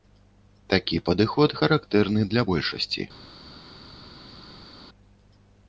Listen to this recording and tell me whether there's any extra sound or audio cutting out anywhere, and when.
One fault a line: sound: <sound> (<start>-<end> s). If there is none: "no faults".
no faults